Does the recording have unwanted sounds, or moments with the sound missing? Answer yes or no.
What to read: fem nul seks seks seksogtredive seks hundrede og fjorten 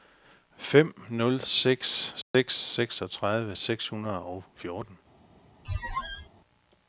yes